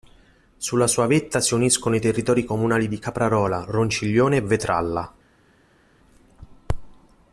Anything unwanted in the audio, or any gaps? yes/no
no